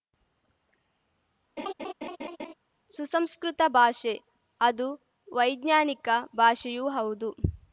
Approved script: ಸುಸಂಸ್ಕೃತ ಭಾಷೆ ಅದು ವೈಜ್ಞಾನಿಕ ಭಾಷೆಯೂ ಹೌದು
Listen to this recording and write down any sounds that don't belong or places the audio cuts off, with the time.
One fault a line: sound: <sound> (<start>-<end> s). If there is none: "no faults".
sound: laugh (1.6-2.5 s)